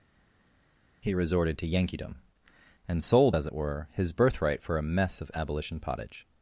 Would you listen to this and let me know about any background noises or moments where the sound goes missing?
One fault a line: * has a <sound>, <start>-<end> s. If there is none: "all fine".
all fine